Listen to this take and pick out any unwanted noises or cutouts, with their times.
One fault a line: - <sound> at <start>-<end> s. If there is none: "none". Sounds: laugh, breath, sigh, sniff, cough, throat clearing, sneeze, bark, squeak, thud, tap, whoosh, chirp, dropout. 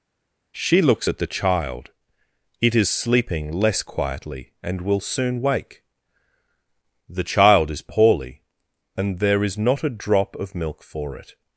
none